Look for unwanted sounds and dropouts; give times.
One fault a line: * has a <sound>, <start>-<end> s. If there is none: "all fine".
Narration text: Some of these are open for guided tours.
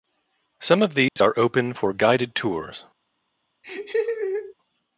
* has a dropout, 1.1-1.2 s
* has a laugh, 3.6-4.5 s